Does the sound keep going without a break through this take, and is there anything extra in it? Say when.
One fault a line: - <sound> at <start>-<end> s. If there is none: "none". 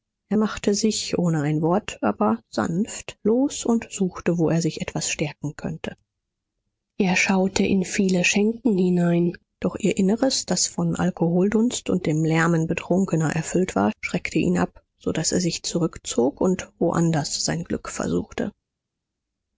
none